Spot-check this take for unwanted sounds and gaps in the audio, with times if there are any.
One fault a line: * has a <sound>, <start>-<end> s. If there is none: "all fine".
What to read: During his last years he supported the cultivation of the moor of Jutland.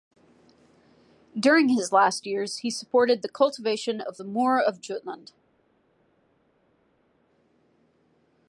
all fine